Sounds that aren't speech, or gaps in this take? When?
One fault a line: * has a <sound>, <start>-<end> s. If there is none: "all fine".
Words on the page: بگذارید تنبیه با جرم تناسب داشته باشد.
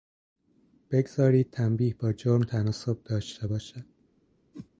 * has a whoosh, 4.5-4.7 s